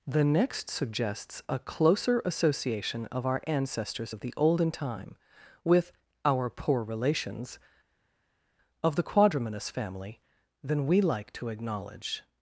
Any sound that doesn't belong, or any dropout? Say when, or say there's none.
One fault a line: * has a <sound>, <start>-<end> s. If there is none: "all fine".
all fine